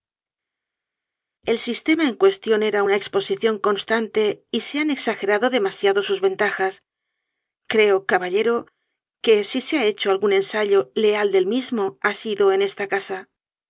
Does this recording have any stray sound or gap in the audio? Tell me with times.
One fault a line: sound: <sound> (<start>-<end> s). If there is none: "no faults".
no faults